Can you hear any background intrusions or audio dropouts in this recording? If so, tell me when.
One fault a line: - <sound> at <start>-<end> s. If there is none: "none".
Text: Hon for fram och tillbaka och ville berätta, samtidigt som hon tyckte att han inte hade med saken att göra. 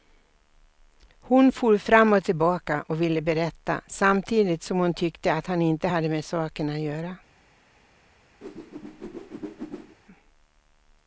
- whoosh at 8.4-10.0 s